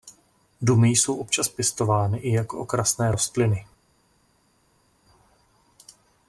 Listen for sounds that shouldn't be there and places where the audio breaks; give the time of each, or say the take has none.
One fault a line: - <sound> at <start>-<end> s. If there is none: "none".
none